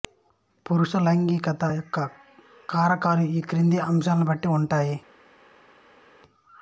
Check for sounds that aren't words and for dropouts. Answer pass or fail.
pass